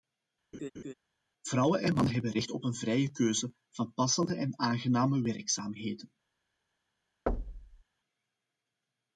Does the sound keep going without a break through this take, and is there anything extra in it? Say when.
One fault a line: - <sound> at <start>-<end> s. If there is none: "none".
- laugh at 0.5-0.9 s
- thud at 7.3-7.8 s